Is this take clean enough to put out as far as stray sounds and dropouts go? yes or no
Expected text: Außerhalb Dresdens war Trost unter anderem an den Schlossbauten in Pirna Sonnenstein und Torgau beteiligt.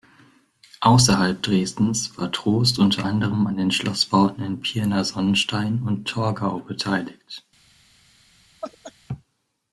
no